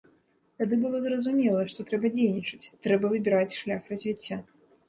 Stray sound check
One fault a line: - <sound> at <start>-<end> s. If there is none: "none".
none